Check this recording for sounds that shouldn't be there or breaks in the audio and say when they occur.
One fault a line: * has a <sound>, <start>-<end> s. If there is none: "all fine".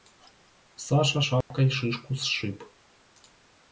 * has a dropout, 1.4-1.5 s